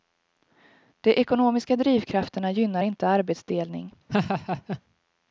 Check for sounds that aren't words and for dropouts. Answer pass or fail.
fail